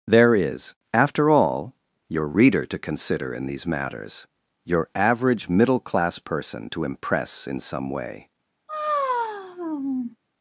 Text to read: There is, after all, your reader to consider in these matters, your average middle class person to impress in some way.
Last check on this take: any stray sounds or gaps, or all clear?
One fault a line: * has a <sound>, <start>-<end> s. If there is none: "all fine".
* has a sigh, 8.7-10.2 s